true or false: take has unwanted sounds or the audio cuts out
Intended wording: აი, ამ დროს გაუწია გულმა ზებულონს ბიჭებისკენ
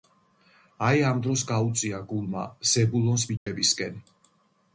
true